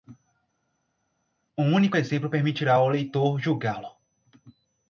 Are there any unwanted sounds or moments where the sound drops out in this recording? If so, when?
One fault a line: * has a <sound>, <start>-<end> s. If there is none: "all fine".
all fine